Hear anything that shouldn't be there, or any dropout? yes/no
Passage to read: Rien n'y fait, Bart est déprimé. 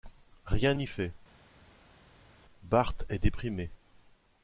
no